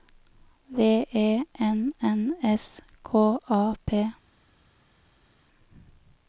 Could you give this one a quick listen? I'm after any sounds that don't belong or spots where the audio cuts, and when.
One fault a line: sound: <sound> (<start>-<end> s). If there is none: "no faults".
no faults